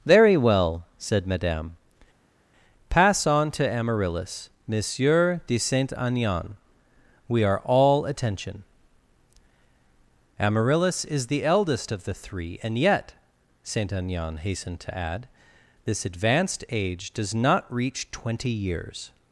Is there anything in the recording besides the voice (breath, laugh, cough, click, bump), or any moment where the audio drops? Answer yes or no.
no